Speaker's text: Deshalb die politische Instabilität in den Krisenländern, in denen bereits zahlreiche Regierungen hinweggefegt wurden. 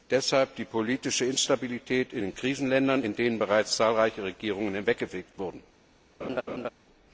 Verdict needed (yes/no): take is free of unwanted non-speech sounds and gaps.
no